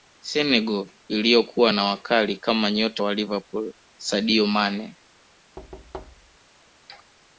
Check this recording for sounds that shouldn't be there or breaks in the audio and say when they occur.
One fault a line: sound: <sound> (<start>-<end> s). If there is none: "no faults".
sound: thud (5.6-6.4 s)